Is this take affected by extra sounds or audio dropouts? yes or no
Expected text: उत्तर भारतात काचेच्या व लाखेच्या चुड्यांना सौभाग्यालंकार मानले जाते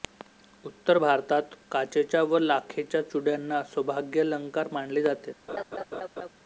yes